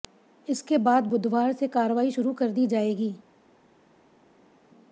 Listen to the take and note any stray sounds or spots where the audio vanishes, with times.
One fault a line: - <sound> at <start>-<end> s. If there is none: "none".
none